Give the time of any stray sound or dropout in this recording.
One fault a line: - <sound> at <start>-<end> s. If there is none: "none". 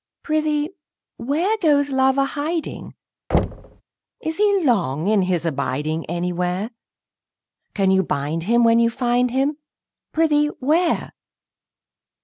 - thud at 3.3-3.8 s